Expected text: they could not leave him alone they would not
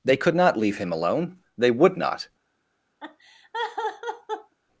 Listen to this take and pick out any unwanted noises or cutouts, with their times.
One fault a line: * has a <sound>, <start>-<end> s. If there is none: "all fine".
* has a laugh, 3.0-4.5 s